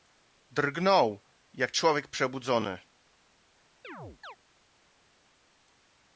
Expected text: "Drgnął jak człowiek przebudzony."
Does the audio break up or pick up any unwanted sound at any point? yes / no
yes